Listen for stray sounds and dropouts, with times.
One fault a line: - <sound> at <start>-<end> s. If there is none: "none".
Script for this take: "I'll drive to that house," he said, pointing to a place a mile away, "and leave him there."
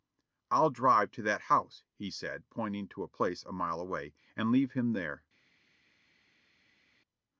none